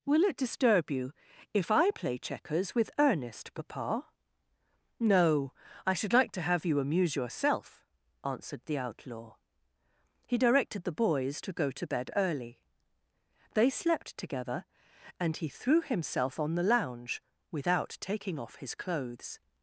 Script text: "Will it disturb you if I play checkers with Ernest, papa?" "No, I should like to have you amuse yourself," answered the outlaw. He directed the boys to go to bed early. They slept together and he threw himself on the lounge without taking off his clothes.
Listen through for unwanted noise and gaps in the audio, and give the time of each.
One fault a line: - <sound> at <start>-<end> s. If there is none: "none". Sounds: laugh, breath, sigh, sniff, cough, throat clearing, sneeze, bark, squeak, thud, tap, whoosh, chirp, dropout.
none